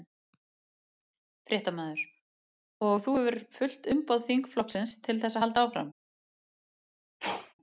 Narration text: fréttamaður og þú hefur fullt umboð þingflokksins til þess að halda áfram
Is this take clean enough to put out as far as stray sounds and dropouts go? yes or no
no